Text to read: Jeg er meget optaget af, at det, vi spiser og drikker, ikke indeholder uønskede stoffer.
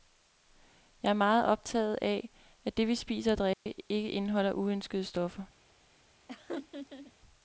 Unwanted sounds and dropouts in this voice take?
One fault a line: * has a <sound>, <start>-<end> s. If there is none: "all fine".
* has a dropout, 3.5-3.7 s
* has a laugh, 6.3-7.1 s